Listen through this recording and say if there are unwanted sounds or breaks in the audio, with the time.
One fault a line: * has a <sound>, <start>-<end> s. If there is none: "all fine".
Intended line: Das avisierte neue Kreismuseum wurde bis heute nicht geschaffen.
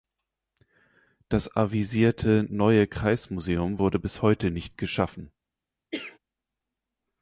* has a cough, 5.9-6.2 s